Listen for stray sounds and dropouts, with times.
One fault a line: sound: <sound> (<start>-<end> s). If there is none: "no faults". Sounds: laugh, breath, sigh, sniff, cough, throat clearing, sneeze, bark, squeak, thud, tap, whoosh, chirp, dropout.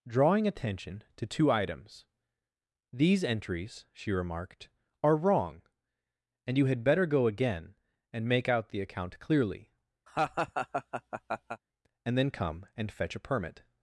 sound: laugh (10.1-11.6 s)